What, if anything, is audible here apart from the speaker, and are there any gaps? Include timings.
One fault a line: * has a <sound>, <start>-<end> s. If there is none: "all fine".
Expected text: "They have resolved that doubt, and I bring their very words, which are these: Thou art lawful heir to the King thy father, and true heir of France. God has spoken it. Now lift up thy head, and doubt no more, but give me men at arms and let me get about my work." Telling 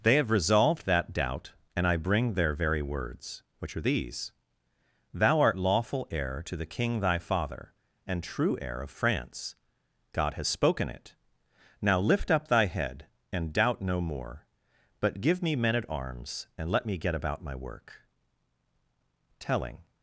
all fine